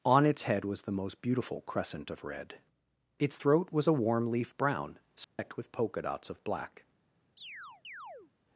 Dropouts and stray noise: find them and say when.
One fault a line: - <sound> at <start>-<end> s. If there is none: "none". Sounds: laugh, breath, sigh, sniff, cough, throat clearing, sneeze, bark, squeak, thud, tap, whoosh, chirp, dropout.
- dropout at 5.2-5.4 s
- chirp at 7.4-8.3 s